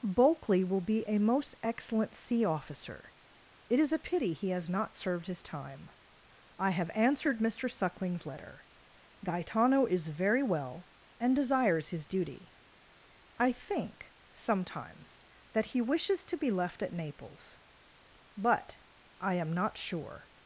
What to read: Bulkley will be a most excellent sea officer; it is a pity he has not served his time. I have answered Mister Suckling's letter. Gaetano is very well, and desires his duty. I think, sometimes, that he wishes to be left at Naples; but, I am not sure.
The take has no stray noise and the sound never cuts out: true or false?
true